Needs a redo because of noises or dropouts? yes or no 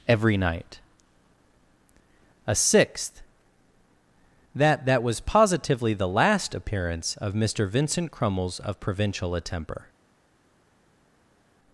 no